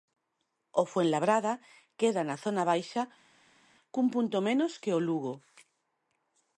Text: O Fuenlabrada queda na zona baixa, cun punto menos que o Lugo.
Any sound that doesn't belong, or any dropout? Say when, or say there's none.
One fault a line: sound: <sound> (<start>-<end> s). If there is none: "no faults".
no faults